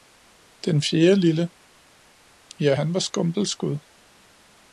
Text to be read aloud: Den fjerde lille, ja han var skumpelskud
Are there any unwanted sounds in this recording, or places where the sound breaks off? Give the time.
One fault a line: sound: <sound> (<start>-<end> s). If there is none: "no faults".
no faults